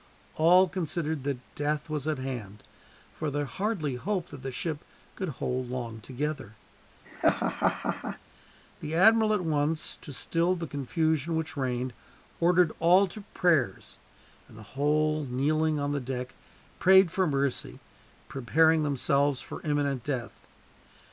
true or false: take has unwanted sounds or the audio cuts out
true